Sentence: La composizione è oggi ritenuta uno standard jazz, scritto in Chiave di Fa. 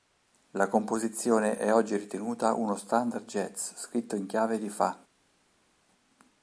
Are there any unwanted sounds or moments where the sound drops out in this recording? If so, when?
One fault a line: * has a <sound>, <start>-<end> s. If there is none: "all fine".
all fine